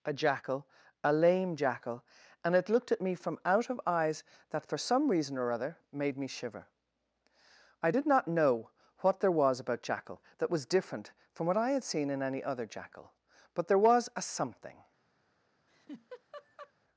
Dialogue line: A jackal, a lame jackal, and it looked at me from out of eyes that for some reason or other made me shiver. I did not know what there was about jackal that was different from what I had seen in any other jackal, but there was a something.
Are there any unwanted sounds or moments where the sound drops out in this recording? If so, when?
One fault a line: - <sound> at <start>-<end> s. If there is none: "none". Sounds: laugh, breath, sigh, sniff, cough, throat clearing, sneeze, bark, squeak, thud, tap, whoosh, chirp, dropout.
- laugh at 15.7-16.7 s